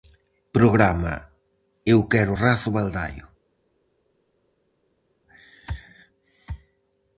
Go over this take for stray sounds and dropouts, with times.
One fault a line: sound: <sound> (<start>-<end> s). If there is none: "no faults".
no faults